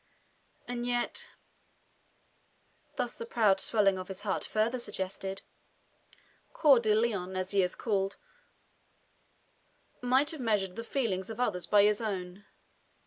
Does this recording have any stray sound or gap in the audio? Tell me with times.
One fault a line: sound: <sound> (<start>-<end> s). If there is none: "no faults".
no faults